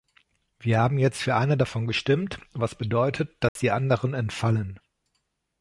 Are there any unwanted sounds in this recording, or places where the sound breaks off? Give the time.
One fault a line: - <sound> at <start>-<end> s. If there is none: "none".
- dropout at 3.5-3.6 s